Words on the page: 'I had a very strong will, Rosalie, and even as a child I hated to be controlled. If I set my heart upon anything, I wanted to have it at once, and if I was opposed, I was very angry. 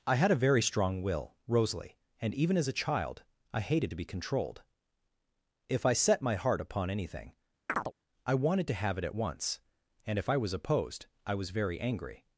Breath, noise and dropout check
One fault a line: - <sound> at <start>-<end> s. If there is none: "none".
- chirp at 7.7-7.9 s